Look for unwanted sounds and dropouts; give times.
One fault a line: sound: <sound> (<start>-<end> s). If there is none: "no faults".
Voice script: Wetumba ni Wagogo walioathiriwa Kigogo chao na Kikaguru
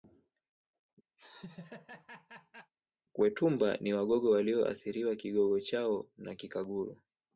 sound: laugh (1.2-2.7 s)